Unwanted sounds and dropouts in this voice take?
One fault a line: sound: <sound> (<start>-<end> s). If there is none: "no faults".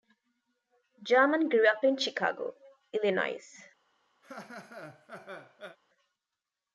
sound: laugh (4.2-5.8 s)